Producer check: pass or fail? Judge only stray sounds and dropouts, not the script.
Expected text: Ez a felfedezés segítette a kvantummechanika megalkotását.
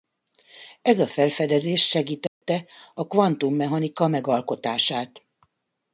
fail